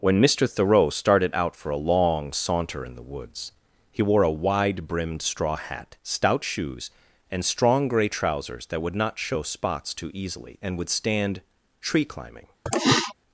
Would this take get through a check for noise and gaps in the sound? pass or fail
fail